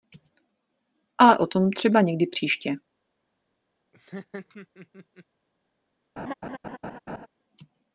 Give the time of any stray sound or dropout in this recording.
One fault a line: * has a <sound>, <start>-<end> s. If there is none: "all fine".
* has a laugh, 3.9-5.2 s
* has a laugh, 6.2-7.3 s